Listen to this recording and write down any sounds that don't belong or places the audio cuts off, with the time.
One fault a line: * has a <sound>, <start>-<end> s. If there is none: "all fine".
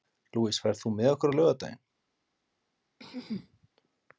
* has a throat clearing, 3.0-3.7 s